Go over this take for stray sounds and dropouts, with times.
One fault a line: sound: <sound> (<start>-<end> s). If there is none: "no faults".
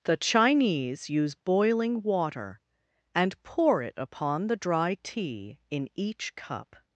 no faults